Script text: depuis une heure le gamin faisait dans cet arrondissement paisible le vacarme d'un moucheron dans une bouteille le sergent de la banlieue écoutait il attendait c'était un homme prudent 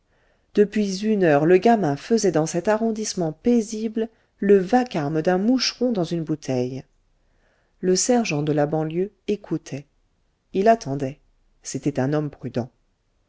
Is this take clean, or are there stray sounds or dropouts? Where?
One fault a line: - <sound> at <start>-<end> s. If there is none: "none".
none